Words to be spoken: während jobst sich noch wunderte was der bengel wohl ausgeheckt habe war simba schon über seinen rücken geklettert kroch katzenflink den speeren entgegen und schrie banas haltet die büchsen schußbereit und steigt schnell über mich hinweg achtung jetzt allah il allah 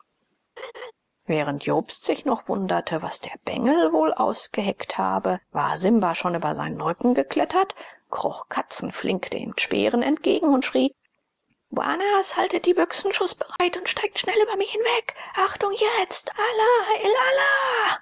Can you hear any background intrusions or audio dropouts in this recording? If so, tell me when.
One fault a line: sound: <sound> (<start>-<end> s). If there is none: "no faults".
sound: laugh (0.6-0.9 s)
sound: dropout (13.6-13.6 s)